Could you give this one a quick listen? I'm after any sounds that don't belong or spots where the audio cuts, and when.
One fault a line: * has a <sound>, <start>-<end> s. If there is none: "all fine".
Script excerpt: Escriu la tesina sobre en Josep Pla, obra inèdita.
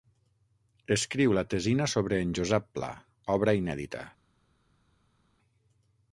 all fine